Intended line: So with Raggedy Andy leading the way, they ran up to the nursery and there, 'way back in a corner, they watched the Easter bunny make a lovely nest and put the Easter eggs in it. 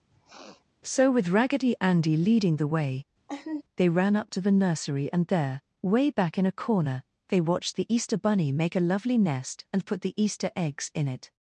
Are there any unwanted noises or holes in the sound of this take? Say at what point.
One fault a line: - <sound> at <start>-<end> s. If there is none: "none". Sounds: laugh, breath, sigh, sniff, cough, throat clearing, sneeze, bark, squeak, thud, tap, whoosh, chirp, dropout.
- sniff at 0.1-0.6 s
- laugh at 3.3-3.6 s